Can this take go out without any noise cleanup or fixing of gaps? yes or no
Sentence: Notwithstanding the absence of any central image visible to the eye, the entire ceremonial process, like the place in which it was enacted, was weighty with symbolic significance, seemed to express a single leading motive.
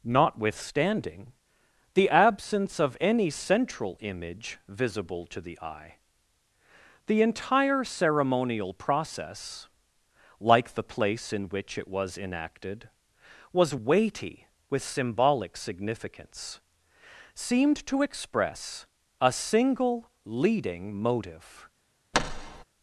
no